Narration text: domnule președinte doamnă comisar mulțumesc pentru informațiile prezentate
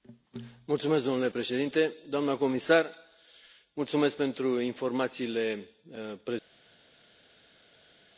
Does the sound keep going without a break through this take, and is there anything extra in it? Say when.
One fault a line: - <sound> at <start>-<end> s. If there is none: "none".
none